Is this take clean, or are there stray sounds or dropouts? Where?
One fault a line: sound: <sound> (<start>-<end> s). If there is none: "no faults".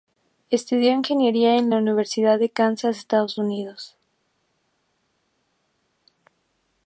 no faults